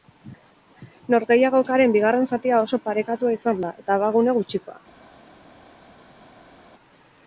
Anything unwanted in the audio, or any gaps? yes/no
no